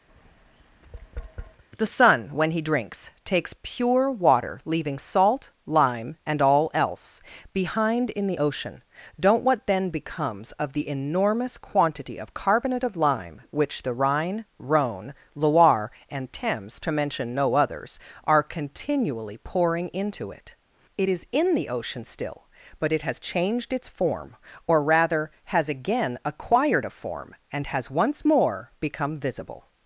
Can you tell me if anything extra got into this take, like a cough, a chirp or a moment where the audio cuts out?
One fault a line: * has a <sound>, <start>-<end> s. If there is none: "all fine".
* has a tap, 0.1-1.6 s